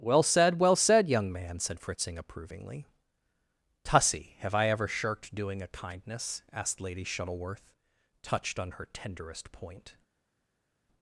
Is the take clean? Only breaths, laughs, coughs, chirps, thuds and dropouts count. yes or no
yes